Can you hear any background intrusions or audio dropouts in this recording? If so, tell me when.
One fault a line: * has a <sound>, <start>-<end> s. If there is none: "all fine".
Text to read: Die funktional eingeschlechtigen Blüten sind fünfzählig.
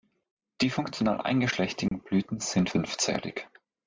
* has a dropout, 1.9-1.9 s